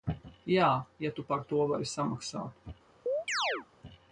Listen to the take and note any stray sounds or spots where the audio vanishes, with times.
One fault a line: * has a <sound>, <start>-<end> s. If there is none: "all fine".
* has a chirp, 3.1-3.7 s